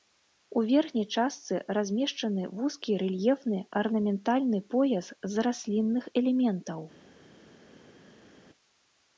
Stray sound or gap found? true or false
false